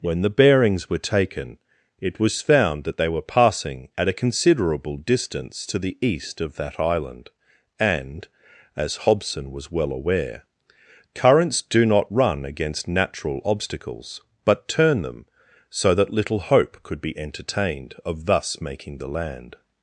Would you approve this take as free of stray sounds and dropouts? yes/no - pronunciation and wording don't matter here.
yes